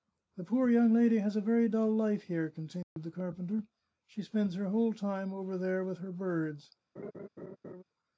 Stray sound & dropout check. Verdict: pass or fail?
fail